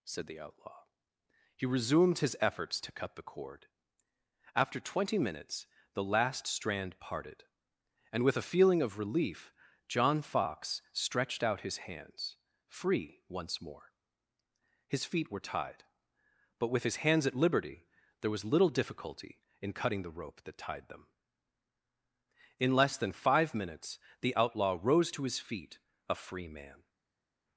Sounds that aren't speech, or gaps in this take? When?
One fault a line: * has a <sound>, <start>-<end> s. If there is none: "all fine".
all fine